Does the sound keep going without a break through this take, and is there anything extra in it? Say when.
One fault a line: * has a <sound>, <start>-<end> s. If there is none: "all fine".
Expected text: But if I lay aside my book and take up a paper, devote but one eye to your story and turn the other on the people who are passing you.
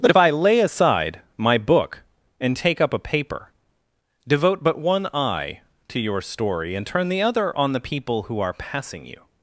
all fine